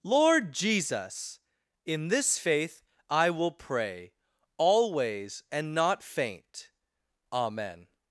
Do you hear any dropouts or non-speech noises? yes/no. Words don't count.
no